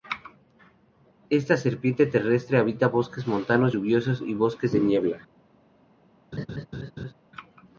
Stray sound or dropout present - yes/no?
yes